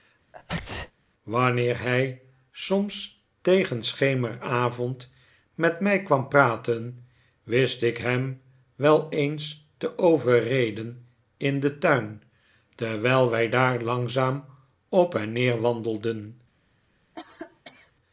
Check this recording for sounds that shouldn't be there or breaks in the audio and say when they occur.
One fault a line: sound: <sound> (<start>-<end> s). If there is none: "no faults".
sound: sneeze (0.3-0.9 s)
sound: cough (17.1-17.9 s)